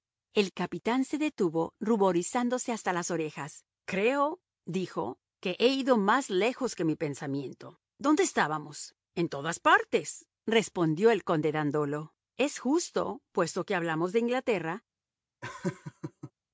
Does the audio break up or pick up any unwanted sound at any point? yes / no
yes